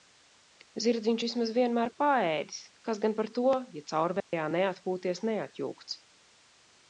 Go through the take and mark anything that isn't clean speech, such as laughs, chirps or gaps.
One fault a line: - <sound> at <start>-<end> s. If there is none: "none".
- dropout at 4.2-4.3 s